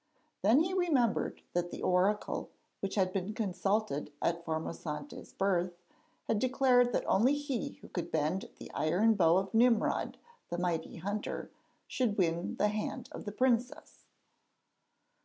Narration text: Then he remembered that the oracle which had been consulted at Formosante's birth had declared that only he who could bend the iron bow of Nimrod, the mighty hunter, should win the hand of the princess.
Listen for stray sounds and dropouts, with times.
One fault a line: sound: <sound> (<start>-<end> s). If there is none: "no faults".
no faults